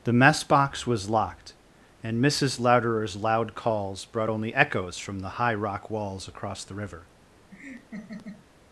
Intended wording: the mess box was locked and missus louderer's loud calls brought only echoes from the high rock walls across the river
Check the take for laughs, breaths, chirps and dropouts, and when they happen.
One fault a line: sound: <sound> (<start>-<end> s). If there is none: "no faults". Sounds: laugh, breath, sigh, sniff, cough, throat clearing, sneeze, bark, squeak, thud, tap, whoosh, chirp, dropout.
sound: laugh (7.5-8.5 s)